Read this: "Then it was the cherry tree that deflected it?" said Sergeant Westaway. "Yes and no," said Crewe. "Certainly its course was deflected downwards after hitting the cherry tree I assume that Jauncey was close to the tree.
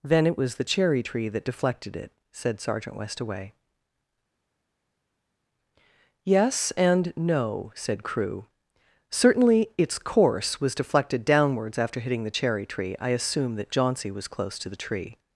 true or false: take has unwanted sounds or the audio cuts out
false